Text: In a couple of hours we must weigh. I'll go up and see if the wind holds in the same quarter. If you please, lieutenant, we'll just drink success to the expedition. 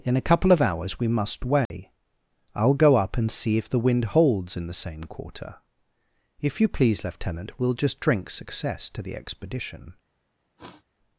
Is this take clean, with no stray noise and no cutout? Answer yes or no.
no